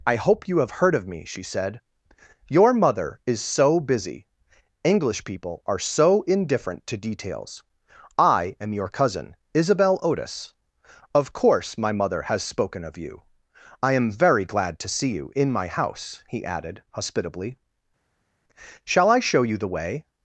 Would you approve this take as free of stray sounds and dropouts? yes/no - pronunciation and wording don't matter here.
yes